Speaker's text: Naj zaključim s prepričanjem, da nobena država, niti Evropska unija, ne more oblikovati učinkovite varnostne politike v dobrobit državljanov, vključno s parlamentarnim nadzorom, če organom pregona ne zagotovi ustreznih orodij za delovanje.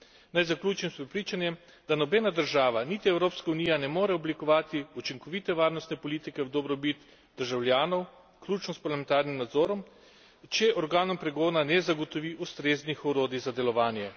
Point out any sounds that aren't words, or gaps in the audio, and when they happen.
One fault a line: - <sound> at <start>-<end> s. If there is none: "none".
none